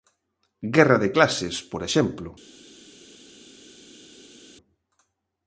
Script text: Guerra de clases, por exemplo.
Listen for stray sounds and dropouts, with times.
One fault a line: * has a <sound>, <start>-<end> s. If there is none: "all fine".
all fine